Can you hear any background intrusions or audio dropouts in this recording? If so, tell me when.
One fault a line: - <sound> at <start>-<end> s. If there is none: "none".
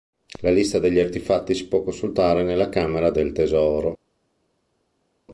none